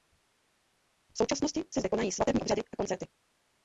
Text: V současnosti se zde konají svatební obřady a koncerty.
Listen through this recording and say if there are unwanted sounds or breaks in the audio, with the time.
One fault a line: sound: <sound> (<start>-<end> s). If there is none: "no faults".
no faults